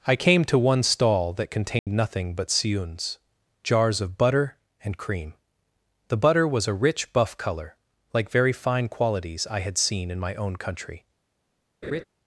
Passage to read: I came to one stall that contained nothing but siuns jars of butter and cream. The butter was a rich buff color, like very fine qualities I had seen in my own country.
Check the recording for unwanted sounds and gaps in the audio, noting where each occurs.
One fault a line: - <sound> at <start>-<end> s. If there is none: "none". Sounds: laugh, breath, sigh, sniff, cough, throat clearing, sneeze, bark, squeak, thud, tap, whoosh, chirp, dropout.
- dropout at 1.8-1.9 s
- laugh at 11.8-12.0 s